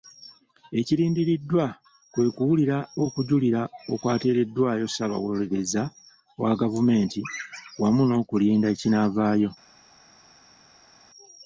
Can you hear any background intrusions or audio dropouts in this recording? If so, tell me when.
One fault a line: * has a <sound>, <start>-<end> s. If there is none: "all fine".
all fine